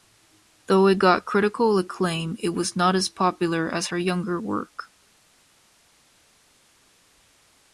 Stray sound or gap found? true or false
false